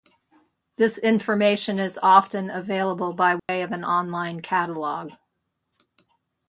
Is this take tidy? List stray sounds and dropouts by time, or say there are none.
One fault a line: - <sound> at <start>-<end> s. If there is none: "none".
- dropout at 3.4-3.5 s